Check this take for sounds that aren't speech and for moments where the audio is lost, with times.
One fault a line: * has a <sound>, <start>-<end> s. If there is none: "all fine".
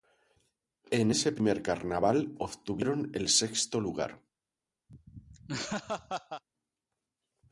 * has a laugh, 4.9-6.4 s